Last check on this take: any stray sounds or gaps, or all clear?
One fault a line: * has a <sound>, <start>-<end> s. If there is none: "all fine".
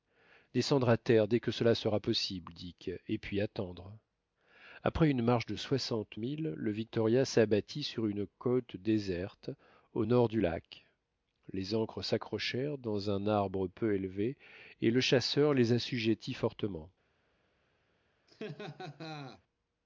* has a laugh, 18.3-19.4 s